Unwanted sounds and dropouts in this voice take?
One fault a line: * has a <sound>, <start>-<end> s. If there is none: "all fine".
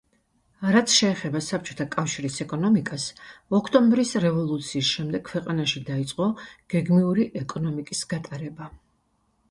all fine